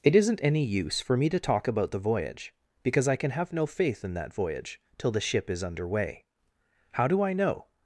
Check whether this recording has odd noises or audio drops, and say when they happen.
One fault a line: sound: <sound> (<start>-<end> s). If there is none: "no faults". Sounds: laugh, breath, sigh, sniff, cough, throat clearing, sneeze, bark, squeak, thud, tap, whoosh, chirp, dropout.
no faults